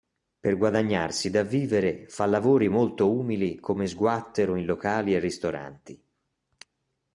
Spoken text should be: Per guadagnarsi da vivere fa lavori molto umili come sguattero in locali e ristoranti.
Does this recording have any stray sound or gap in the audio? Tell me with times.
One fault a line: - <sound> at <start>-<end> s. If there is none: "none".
none